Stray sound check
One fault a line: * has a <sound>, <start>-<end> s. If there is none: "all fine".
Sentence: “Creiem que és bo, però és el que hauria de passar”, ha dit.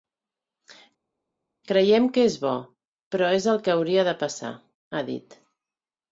all fine